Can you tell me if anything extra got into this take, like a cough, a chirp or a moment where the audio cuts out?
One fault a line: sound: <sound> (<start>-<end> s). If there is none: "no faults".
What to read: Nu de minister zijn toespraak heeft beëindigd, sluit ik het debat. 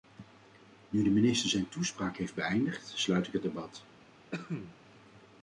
sound: cough (4.3-4.8 s)